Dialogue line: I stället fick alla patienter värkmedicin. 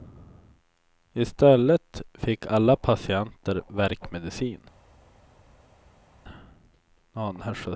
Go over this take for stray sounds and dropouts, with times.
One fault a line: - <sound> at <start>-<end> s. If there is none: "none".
none